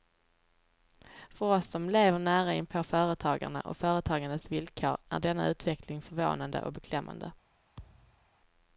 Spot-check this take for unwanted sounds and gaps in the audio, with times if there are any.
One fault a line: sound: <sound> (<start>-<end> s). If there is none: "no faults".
sound: thud (7.8-8.3 s)